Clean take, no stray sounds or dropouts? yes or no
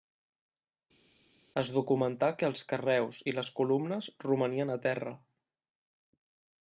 yes